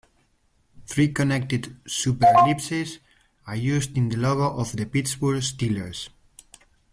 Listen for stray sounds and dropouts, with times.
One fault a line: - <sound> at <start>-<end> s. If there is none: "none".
none